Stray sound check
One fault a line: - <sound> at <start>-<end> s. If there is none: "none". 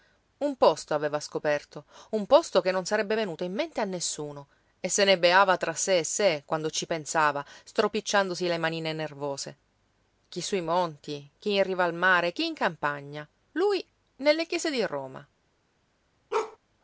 - bark at 16.3-16.6 s